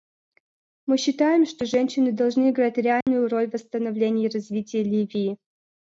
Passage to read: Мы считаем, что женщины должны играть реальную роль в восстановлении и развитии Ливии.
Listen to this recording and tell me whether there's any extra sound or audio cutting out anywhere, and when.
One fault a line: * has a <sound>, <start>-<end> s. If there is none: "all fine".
* has a dropout, 3.0-3.1 s